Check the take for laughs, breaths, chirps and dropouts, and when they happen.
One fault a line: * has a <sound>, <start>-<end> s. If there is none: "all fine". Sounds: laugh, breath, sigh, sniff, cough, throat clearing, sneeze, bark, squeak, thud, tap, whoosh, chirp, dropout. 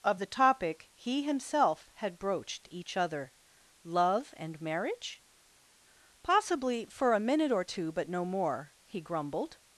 all fine